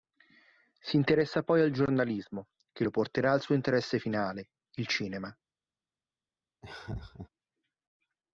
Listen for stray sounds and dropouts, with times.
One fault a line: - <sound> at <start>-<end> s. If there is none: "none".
- laugh at 6.6-7.3 s